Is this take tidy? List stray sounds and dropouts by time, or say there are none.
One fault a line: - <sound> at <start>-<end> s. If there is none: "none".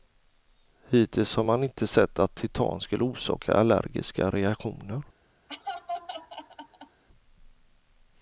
- laugh at 5.5-7.0 s